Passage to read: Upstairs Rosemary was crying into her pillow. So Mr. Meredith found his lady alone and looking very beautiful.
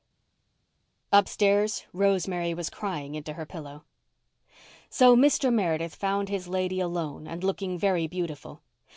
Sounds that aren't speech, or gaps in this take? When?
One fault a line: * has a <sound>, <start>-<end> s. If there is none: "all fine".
all fine